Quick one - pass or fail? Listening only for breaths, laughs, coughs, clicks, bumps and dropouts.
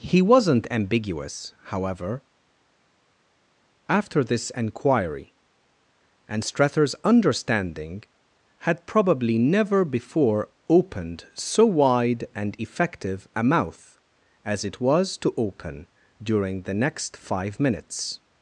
pass